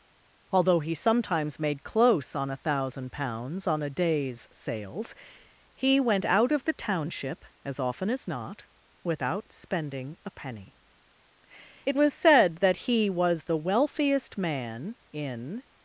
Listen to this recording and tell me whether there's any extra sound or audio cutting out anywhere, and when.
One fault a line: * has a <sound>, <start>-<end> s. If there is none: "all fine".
all fine